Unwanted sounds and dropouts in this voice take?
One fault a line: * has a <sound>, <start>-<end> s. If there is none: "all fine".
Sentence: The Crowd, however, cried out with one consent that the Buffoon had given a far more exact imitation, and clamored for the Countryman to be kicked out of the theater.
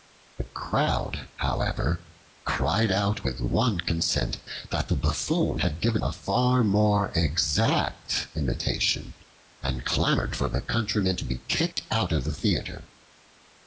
* has a dropout, 11.7-11.8 s